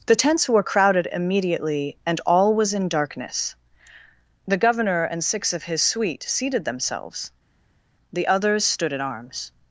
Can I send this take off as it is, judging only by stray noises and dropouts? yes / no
yes